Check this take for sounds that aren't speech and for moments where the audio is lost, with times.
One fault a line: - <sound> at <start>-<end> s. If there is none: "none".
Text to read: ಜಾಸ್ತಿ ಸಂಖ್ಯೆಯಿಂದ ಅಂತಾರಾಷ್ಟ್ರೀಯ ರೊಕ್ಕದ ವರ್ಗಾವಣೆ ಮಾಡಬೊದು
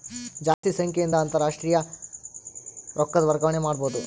- dropout at 0.5-0.6 s